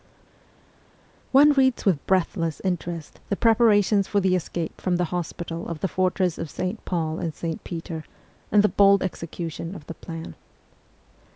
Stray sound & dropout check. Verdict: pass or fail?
pass